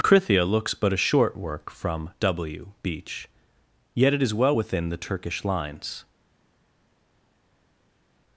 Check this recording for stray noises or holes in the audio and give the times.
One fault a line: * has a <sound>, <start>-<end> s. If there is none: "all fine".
all fine